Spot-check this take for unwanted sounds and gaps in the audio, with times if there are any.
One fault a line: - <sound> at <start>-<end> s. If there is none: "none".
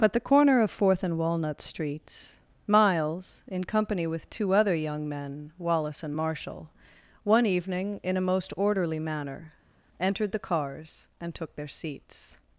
none